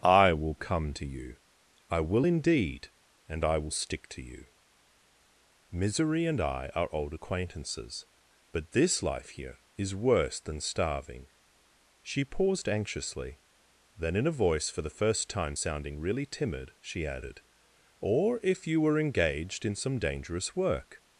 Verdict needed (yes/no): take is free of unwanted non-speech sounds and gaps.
yes